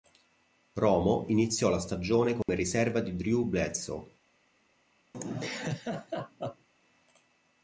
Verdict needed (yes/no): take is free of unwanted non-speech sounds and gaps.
no